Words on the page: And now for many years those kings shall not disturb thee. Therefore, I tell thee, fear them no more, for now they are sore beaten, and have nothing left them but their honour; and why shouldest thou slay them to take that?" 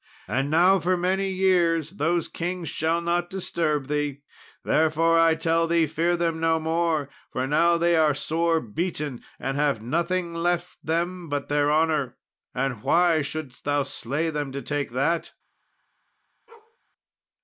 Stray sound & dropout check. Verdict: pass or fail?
fail